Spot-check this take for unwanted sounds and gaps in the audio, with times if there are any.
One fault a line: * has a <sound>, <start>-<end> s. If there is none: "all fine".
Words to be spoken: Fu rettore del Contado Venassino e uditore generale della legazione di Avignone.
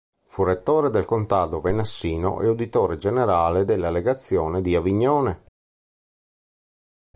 all fine